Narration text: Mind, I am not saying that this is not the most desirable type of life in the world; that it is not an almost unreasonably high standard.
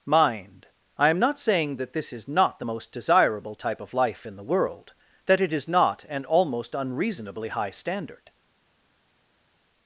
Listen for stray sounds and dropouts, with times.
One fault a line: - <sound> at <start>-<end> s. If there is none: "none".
none